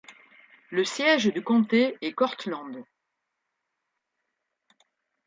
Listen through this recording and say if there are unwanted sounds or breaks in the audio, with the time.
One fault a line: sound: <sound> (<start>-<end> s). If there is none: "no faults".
no faults